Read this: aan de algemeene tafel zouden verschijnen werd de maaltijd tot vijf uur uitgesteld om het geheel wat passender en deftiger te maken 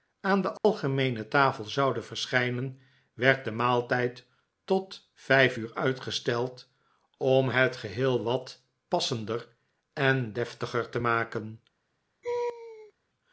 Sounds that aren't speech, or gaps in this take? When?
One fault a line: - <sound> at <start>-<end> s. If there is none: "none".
- dropout at 0.6-0.6 s
- laugh at 12.2-12.9 s